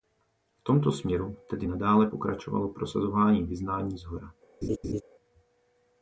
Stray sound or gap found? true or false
true